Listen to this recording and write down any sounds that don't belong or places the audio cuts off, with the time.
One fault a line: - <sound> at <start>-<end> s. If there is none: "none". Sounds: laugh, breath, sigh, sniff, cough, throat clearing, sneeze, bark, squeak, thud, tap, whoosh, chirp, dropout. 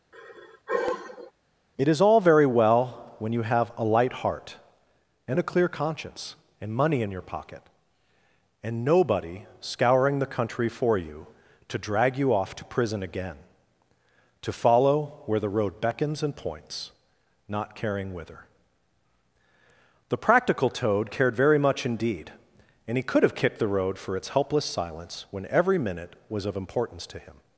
- sigh at 0.1-1.3 s